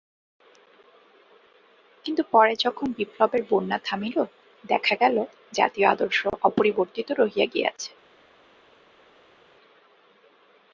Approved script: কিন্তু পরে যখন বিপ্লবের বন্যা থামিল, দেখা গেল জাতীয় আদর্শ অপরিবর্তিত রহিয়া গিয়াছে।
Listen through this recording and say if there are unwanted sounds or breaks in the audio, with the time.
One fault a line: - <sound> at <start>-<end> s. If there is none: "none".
none